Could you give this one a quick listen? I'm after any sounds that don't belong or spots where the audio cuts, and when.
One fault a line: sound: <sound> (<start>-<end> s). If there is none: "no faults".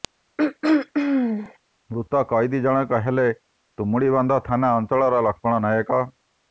sound: throat clearing (0.4-1.6 s)